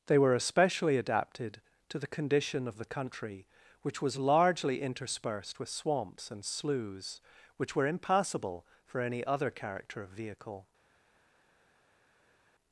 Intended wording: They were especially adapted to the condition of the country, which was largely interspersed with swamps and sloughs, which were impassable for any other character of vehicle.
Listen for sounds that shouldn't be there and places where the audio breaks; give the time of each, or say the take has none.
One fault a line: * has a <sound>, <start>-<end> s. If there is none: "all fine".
all fine